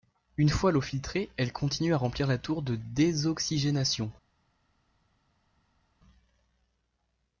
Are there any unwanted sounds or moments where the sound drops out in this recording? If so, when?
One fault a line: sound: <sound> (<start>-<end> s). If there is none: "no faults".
no faults